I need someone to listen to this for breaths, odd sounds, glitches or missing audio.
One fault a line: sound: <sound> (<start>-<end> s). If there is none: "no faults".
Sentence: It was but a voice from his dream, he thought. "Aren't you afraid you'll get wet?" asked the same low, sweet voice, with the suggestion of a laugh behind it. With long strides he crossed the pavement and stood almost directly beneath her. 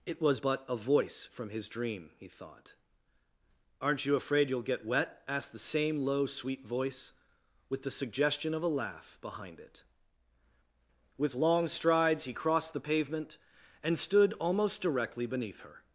no faults